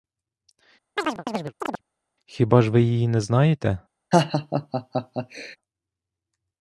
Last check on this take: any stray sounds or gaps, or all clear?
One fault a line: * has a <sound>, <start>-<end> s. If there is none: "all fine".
* has a chirp, 1.0-1.8 s
* has a laugh, 4.1-5.6 s